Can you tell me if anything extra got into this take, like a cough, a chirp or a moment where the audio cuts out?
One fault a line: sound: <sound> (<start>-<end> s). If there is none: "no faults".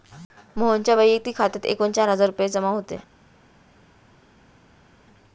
no faults